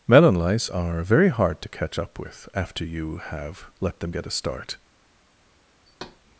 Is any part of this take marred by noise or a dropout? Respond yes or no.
yes